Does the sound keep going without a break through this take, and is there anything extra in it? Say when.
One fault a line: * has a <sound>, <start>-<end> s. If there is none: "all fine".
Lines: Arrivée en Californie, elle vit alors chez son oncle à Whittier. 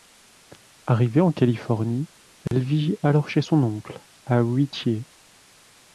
* has a dropout, 2.5-2.5 s